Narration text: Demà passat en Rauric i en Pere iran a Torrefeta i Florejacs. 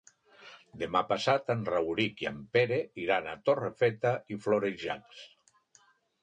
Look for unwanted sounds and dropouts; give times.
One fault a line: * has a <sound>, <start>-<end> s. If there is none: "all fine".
all fine